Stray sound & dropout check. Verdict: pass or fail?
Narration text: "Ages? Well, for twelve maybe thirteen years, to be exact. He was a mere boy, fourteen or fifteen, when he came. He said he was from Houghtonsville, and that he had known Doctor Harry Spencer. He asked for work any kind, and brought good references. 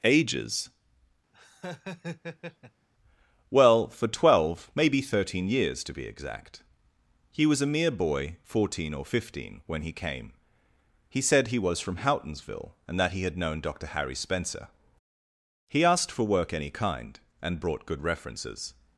fail